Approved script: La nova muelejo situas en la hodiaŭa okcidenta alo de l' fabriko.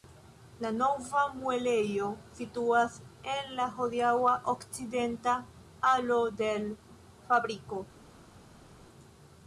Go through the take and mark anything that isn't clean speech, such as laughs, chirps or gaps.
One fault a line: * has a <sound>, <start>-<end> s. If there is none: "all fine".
all fine